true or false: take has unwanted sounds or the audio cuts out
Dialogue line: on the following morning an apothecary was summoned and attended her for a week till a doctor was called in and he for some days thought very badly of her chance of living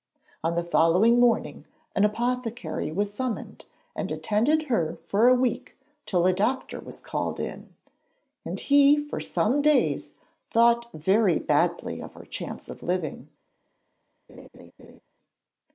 true